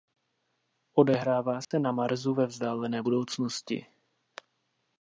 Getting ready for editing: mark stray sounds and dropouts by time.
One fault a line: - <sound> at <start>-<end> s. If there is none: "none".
- dropout at 1.6-1.7 s